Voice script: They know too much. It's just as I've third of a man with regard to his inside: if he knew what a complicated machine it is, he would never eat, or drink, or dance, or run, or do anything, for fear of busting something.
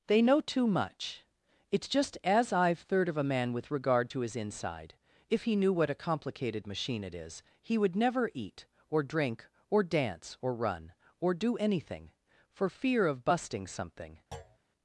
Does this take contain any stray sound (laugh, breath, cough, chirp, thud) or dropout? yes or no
yes